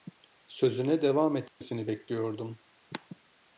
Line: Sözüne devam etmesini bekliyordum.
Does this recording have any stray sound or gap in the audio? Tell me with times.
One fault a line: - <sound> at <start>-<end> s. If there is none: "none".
- dropout at 1.5-1.6 s